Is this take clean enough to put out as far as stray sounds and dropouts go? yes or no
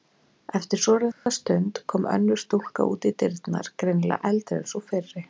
no